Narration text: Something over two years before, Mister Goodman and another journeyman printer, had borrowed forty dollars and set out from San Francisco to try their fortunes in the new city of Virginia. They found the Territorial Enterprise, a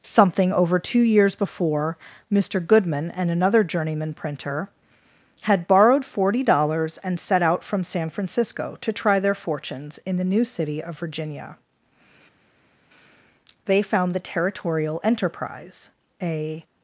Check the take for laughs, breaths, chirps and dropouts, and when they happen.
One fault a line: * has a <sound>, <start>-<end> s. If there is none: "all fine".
all fine